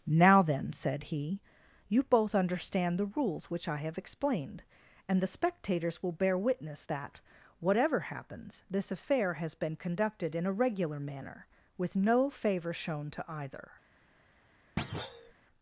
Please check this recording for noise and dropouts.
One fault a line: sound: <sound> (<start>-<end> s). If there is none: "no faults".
sound: thud (14.8-15.3 s)